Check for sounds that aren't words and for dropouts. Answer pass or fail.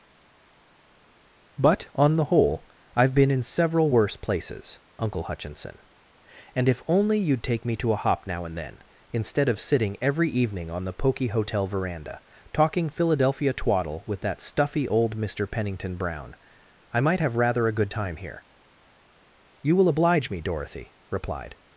pass